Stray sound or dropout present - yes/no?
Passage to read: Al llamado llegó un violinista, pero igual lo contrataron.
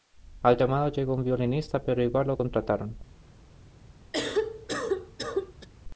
yes